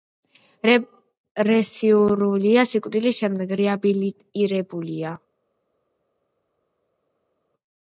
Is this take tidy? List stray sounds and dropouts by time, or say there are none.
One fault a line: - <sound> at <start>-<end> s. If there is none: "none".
none